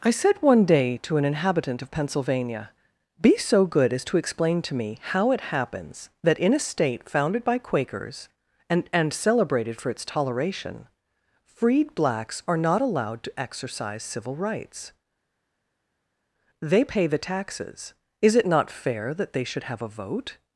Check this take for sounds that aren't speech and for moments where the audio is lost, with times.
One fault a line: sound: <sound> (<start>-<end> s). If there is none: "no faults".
no faults